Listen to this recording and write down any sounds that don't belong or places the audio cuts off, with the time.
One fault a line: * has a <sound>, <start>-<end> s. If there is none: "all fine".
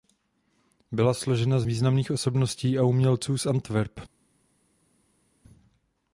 all fine